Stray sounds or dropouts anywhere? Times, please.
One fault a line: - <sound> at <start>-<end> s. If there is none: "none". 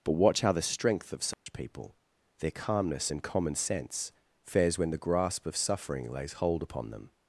- dropout at 1.3-1.5 s